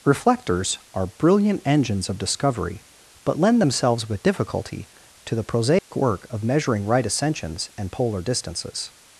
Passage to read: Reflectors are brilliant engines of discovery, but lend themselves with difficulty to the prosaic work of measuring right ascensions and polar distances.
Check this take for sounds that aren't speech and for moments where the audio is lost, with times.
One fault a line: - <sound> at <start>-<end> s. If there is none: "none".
- dropout at 5.8-5.9 s